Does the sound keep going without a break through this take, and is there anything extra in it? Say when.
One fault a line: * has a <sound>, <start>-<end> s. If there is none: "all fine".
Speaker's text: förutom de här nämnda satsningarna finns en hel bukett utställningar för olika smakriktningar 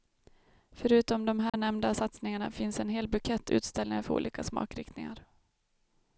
* has a dropout, 1.5-1.5 s